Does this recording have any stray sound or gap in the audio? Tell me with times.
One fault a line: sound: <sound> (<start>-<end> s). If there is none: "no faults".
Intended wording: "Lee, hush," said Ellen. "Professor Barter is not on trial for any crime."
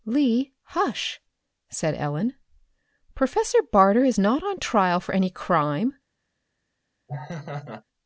sound: laugh (7.1-7.8 s)